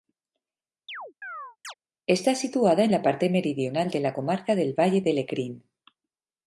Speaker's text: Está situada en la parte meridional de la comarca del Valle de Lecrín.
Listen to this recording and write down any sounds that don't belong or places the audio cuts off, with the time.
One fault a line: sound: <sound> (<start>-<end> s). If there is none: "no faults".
sound: chirp (0.9-1.7 s)